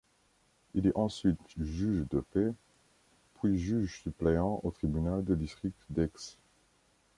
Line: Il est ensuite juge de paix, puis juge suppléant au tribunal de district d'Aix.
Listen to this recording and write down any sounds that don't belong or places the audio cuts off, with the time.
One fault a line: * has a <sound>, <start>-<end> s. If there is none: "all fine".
all fine